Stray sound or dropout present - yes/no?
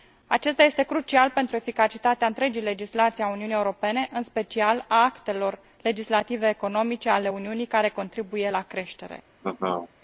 yes